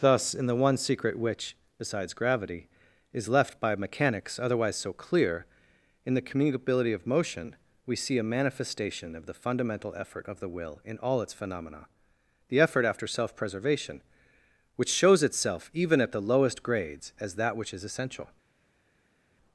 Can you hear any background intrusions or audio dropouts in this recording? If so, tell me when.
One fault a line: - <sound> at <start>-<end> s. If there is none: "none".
none